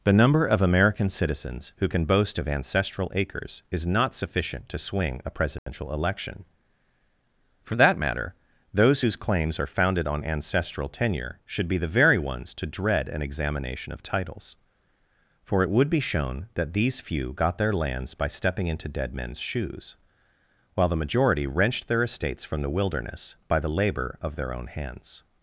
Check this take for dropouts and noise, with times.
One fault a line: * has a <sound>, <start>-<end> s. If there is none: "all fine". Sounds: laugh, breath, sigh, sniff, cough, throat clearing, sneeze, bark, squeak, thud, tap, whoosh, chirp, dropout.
* has a dropout, 5.6-5.7 s